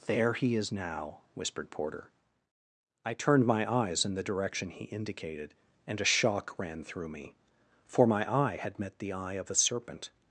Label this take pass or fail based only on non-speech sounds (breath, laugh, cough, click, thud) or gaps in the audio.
pass